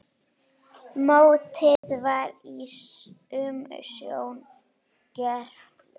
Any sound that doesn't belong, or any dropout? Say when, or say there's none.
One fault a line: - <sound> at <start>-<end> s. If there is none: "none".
- dropout at 1.8-1.8 s